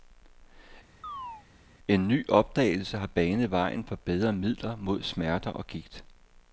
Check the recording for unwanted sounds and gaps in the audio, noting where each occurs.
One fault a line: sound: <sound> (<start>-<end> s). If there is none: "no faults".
sound: chirp (1.0-1.5 s)